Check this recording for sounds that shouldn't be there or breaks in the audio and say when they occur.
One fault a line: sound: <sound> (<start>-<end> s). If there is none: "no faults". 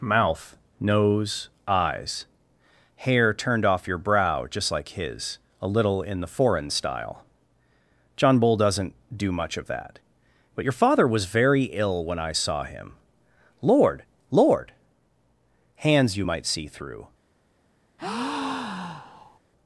sound: breath (18.0-19.4 s)